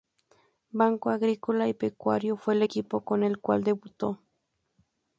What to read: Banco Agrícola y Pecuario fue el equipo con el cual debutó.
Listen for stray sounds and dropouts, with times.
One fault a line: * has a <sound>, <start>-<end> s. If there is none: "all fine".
all fine